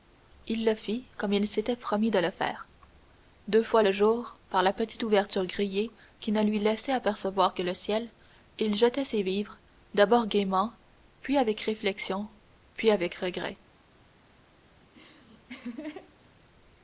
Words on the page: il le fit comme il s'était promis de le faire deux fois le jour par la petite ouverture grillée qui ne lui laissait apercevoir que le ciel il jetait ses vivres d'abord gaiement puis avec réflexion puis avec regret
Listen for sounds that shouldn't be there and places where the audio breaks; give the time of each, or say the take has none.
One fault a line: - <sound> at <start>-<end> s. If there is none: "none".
- laugh at 14.8-16.3 s